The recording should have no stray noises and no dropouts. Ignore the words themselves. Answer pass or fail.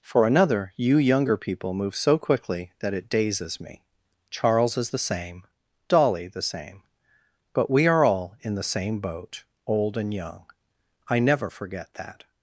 pass